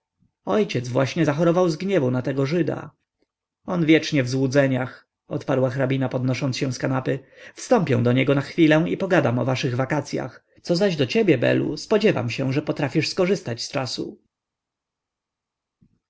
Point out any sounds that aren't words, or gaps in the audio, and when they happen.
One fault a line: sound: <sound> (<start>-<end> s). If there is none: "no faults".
no faults